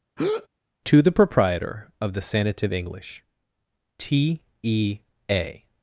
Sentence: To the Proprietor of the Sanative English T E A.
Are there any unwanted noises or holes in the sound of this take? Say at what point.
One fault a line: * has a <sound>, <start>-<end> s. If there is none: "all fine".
* has a breath, 0.2-0.5 s